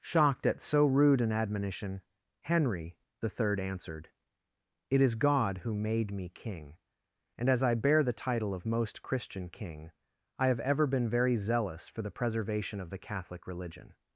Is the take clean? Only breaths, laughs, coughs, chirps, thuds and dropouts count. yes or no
yes